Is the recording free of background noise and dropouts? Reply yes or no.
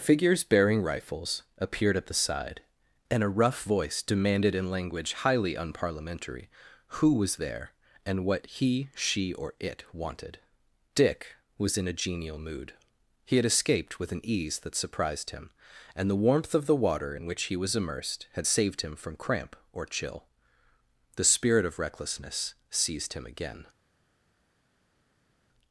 yes